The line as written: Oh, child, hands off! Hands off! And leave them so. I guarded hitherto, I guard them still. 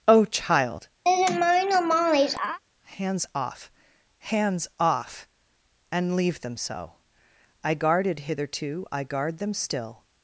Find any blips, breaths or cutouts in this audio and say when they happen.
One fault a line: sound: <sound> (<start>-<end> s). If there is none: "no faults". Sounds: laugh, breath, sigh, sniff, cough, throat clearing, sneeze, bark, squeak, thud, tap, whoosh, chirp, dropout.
sound: laugh (1.0-2.6 s)